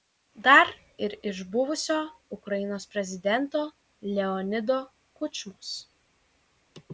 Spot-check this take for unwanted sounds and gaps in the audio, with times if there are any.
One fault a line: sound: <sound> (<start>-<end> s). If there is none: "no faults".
no faults